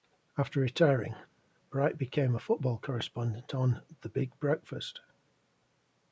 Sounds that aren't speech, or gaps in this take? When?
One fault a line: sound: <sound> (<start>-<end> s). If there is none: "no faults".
no faults